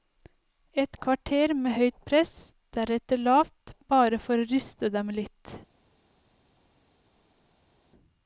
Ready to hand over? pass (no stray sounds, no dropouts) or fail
pass